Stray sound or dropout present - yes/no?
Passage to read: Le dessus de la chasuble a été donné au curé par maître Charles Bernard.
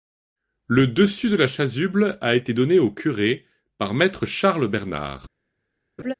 yes